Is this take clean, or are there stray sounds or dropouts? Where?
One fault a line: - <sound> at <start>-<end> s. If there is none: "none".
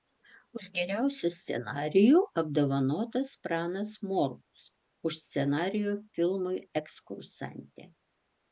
none